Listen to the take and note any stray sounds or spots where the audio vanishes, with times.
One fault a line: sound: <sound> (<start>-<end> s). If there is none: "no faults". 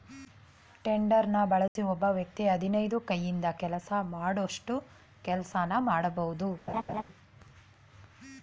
sound: dropout (1.7-1.8 s)
sound: laugh (6.7-7.0 s)